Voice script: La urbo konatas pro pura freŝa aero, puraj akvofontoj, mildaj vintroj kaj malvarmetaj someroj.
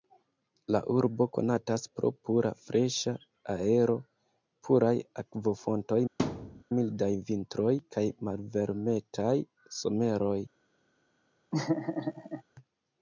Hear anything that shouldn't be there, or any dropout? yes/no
yes